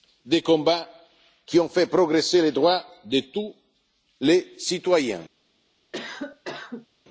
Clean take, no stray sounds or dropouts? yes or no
no